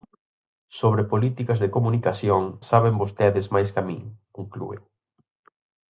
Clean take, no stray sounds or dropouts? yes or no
yes